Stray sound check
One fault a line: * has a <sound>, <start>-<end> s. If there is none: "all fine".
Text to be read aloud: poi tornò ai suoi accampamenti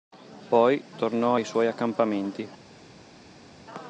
all fine